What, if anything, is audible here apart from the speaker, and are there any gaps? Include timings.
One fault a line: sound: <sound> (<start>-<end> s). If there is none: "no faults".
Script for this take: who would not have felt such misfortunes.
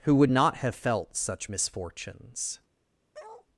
sound: bark (3.1-3.5 s)